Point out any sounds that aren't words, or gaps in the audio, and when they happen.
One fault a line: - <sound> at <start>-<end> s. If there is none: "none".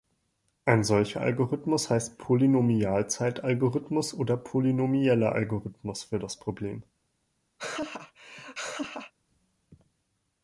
- laugh at 7.6-9.1 s